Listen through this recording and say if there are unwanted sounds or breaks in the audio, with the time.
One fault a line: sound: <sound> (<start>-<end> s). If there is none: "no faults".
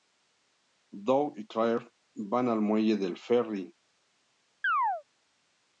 sound: chirp (4.6-5.0 s)